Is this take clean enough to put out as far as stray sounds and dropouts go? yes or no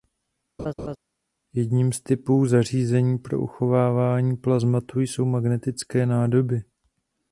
no